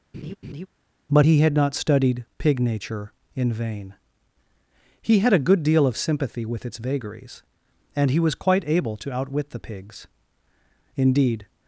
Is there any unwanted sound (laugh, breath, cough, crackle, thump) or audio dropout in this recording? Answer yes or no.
yes